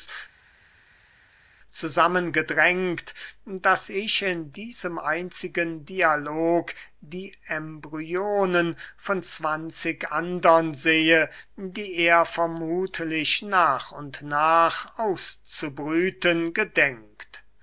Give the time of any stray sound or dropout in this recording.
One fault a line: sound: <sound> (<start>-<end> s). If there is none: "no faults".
no faults